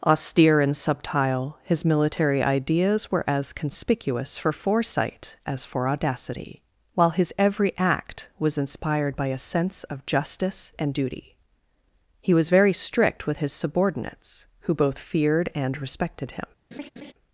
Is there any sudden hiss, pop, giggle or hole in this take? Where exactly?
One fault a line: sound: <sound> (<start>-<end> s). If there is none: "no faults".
sound: laugh (16.7-17.1 s)